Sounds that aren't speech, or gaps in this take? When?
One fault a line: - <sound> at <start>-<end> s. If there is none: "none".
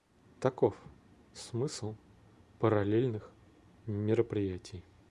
none